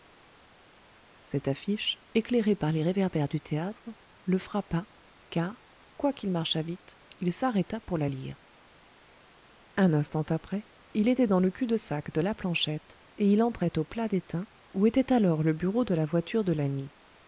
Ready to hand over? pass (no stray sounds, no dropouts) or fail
pass